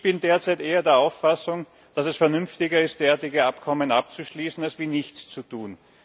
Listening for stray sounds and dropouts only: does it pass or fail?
pass